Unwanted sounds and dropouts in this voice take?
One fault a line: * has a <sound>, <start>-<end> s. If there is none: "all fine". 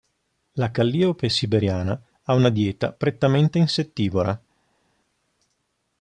all fine